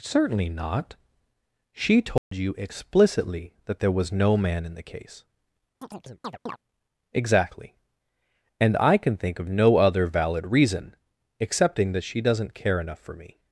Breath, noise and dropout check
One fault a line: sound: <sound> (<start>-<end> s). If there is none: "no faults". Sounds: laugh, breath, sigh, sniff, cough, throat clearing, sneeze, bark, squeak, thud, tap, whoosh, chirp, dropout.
sound: dropout (2.2-2.3 s)
sound: chirp (5.8-6.6 s)